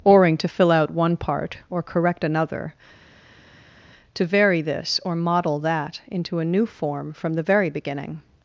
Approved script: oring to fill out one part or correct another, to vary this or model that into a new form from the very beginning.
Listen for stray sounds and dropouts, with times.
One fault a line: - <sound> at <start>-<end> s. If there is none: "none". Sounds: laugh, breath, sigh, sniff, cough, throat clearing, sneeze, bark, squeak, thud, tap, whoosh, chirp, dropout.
none